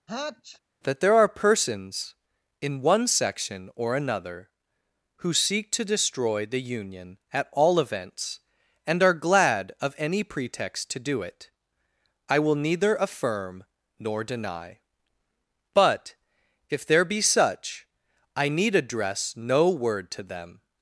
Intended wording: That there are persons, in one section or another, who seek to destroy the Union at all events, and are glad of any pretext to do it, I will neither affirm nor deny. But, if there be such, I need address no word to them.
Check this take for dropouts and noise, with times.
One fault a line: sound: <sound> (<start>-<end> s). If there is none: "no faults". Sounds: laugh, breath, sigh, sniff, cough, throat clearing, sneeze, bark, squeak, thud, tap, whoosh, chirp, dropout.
sound: sneeze (0.1-0.6 s)